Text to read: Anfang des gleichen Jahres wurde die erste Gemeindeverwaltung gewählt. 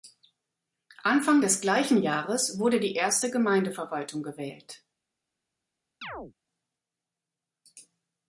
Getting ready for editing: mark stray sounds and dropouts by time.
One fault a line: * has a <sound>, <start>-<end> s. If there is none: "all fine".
* has a chirp, 6.0-6.3 s